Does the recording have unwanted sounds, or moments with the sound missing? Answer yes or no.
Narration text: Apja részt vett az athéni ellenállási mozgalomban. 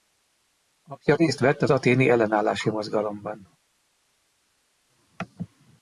no